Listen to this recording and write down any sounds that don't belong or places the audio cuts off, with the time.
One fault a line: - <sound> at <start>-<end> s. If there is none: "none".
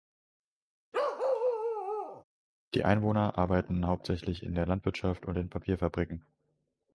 - bark at 0.9-2.2 s